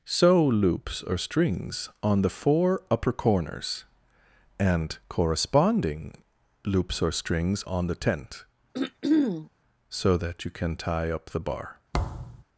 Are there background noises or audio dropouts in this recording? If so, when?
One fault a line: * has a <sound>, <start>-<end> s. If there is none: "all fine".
* has a throat clearing, 8.7-9.5 s
* has a thud, 11.9-12.4 s